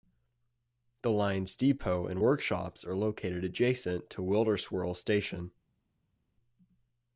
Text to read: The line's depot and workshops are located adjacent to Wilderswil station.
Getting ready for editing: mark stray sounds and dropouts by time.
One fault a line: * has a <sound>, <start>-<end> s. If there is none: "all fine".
all fine